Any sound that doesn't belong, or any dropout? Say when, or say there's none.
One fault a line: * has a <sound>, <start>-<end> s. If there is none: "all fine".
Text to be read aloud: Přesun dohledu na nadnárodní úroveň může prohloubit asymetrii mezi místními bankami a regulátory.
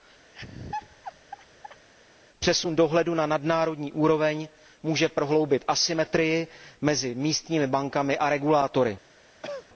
* has a laugh, 0.3-1.9 s
* has a cough, 9.4-9.7 s